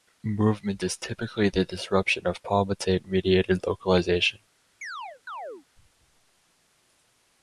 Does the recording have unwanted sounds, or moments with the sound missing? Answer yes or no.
yes